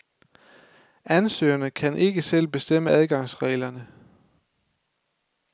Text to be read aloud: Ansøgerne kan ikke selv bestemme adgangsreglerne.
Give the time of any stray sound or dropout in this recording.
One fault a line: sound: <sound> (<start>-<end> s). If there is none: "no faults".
no faults